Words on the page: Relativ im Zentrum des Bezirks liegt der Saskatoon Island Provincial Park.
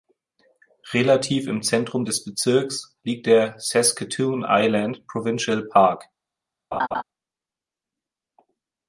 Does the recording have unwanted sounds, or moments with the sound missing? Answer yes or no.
yes